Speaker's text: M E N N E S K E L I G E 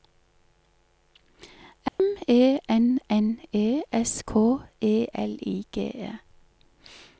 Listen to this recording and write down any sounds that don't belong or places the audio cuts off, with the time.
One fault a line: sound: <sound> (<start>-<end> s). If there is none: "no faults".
sound: dropout (1.9-2.0 s)